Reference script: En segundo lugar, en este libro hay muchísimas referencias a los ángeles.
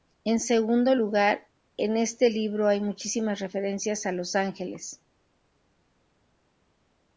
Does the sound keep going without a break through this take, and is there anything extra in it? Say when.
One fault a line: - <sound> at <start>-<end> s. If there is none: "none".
none